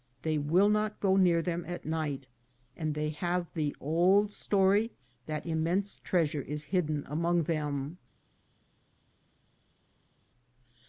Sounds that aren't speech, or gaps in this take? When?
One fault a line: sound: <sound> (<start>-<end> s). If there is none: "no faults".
no faults